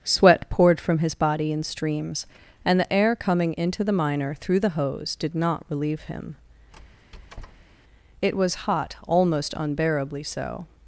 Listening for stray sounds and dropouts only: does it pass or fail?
fail